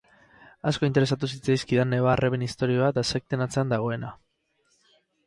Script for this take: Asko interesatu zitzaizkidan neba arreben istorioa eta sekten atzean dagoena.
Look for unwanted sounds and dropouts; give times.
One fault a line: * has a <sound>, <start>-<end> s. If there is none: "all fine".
all fine